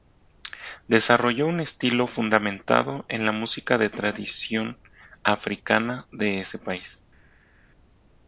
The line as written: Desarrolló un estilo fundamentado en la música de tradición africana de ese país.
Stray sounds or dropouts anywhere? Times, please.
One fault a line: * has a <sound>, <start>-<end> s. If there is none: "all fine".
all fine